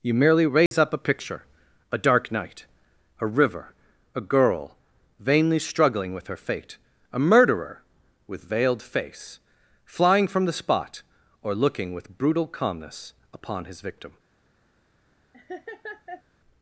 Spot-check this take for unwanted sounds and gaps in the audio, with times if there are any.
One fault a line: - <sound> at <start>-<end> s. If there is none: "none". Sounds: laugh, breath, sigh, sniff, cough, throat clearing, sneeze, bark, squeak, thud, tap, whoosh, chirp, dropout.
- dropout at 0.7-0.7 s
- laugh at 15.3-16.2 s